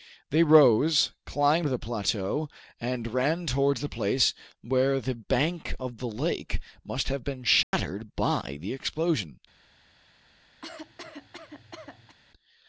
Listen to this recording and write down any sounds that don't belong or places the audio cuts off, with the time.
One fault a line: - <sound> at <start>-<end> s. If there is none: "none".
- dropout at 7.6-7.7 s
- cough at 10.6-12.2 s